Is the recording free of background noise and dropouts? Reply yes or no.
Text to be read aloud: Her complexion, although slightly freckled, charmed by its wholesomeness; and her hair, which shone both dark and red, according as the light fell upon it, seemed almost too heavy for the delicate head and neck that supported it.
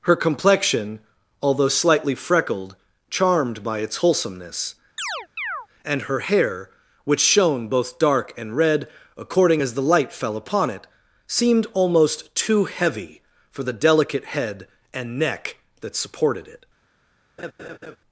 no